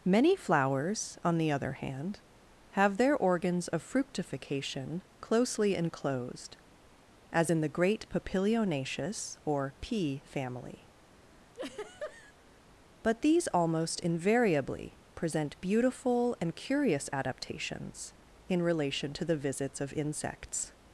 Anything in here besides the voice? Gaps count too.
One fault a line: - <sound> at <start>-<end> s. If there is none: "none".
- laugh at 11.5-12.3 s